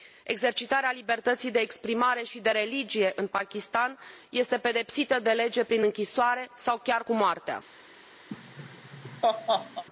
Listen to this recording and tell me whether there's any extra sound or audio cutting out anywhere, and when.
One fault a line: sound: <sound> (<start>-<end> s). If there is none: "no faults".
sound: laugh (8.3-9.8 s)